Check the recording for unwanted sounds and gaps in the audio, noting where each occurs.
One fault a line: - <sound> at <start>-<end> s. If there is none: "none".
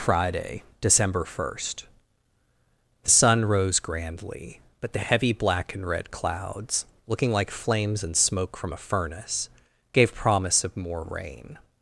none